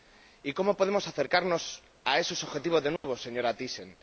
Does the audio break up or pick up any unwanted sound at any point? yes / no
yes